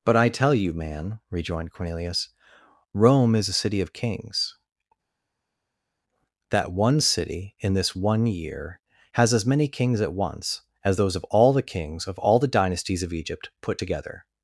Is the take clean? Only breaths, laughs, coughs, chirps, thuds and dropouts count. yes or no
yes